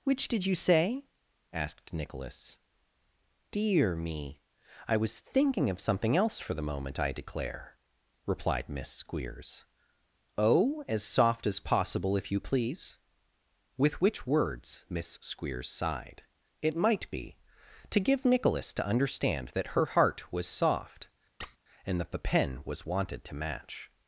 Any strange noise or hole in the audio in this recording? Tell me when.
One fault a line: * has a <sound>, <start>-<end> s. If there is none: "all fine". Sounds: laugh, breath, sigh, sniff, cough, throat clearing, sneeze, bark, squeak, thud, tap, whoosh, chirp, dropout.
* has a squeak, 21.4-21.6 s